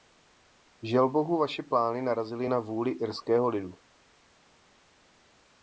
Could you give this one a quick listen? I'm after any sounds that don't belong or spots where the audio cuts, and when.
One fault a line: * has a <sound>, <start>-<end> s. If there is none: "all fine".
all fine